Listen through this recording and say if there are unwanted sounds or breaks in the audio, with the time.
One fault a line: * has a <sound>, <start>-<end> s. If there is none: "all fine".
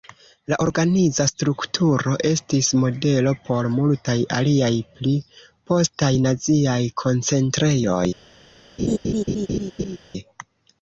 * has a laugh, 8.8-10.0 s